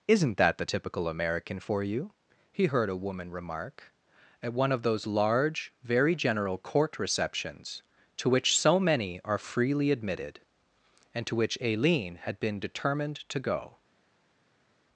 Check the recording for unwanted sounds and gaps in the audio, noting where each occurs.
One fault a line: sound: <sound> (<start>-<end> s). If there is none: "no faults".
no faults